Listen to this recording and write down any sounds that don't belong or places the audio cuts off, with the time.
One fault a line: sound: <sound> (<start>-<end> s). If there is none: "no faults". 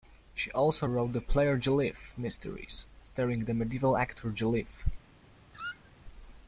sound: squeak (5.5-5.9 s)